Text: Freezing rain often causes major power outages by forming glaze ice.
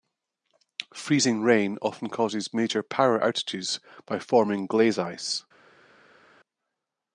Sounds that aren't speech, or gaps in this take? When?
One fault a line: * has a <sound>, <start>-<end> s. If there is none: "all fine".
all fine